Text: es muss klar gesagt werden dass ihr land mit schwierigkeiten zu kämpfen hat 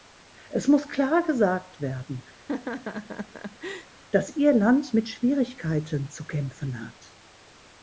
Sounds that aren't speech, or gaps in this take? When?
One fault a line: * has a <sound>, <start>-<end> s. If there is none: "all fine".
* has a laugh, 2.4-3.9 s